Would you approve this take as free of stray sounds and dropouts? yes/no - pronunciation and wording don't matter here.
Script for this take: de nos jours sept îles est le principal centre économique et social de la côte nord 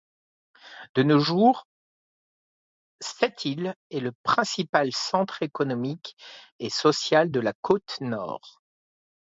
yes